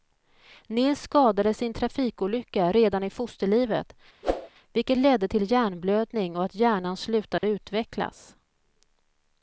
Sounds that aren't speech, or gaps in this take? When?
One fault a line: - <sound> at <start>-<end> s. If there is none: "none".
- whoosh at 4.2-4.5 s
- dropout at 7.4-7.4 s